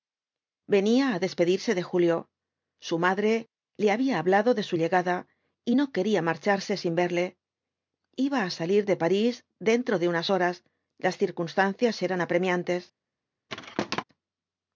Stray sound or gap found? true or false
true